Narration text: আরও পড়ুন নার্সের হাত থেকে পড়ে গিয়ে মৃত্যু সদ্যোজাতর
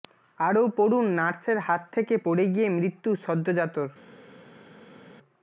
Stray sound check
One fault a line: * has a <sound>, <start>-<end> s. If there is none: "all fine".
all fine